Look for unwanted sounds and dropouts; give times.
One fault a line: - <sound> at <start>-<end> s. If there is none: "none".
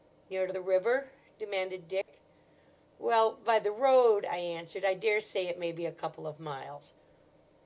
- dropout at 2.0-2.1 s